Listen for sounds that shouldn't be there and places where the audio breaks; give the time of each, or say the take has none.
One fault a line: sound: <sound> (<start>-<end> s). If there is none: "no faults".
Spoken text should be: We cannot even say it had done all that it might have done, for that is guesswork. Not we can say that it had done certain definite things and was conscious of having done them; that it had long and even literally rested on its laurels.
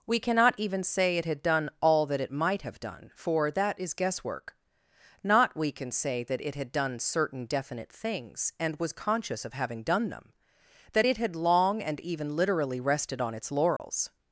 sound: dropout (13.8-13.8 s)